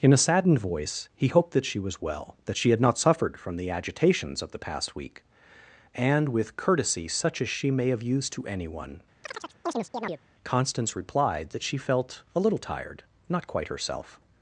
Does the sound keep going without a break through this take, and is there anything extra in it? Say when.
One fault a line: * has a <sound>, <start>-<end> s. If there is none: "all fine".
* has a chirp, 9.2-10.2 s